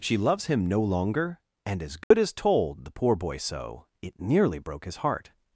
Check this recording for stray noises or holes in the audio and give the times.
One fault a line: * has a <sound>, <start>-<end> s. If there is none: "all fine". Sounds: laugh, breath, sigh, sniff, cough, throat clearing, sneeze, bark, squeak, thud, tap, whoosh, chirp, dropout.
* has a dropout, 2.0-2.1 s